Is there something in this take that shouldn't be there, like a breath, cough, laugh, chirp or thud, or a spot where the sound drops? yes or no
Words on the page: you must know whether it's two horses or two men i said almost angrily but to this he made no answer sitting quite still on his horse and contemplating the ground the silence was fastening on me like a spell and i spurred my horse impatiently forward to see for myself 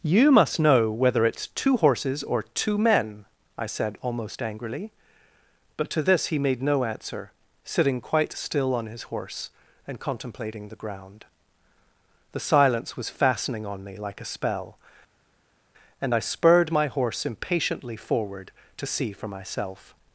no